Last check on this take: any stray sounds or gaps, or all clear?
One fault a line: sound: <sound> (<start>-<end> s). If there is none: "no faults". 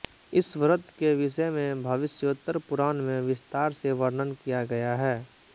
no faults